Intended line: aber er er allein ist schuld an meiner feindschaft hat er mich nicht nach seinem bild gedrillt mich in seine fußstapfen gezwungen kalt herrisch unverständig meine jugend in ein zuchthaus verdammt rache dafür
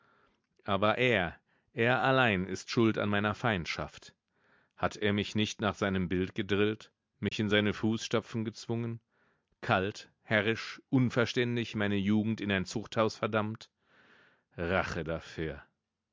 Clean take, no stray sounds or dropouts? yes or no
no